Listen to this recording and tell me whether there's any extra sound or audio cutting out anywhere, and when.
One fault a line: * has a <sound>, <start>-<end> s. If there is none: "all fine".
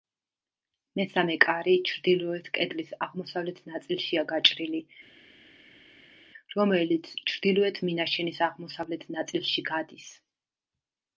all fine